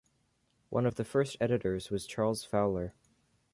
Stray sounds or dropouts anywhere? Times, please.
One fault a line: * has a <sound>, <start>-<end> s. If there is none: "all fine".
all fine